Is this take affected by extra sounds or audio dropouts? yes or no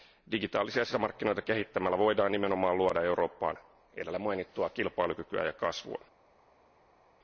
no